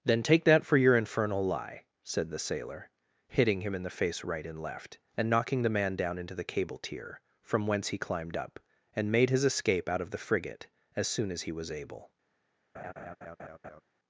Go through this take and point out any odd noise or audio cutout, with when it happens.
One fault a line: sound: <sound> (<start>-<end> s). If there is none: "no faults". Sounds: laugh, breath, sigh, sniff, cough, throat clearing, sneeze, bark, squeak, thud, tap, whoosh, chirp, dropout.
sound: laugh (12.7-13.8 s)